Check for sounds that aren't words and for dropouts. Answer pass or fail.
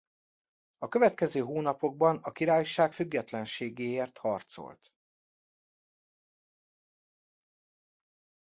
pass